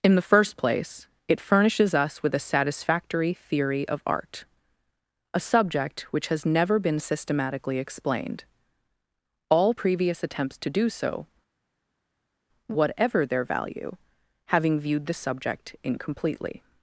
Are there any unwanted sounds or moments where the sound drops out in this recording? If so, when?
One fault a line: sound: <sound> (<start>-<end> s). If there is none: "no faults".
no faults